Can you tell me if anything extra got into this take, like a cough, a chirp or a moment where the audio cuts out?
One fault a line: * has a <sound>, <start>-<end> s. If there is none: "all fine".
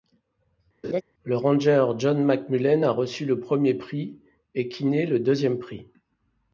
* has a laugh, 0.8-1.0 s